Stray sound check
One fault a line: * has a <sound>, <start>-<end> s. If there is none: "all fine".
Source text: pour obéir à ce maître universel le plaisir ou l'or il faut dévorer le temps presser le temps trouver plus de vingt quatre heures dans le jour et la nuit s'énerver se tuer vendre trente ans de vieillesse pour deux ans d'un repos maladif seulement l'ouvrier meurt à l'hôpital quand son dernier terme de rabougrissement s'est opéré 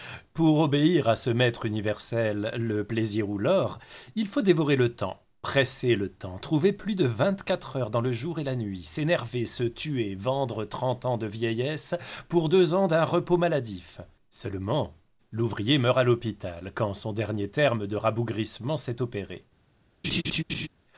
* has a laugh, 20.0-20.7 s